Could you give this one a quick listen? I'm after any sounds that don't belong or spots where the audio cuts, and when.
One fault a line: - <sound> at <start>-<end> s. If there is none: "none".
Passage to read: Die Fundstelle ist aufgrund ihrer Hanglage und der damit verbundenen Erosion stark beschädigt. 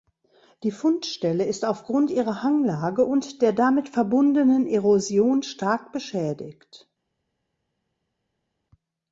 none